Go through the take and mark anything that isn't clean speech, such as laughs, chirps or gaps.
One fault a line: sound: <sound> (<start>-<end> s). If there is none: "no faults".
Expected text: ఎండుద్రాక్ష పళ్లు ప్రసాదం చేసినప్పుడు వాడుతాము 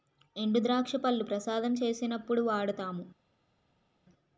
no faults